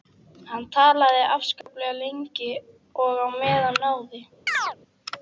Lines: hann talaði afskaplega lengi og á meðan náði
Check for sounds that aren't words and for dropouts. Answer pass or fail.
fail